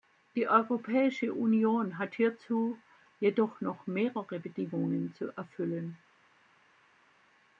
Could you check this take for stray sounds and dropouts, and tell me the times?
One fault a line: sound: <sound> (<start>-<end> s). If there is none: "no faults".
no faults